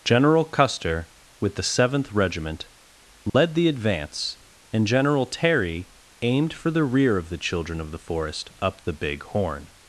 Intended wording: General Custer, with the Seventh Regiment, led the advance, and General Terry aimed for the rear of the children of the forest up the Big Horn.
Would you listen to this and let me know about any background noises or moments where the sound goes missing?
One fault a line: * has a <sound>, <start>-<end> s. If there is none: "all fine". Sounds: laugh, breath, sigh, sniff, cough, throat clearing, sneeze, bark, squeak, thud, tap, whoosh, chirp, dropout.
* has a dropout, 3.3-3.3 s